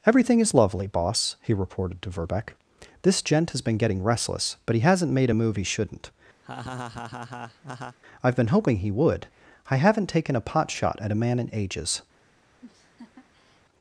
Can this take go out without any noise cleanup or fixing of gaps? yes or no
no